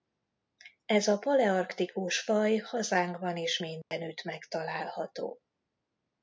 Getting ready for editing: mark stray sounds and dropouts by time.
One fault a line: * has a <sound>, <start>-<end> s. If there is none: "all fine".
* has a dropout, 3.8-3.9 s